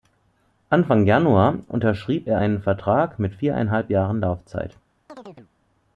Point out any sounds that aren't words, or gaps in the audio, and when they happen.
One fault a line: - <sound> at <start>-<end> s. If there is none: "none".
- chirp at 5.1-5.5 s